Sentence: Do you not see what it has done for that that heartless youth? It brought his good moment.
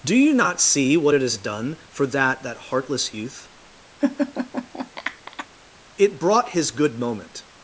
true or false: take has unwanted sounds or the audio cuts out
true